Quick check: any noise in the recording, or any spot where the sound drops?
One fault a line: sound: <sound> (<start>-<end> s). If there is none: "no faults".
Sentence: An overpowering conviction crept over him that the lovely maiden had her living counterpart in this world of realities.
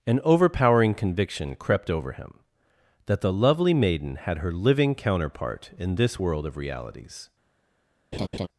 sound: laugh (8.1-8.5 s)